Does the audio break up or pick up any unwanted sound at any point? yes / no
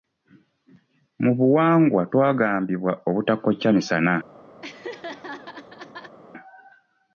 yes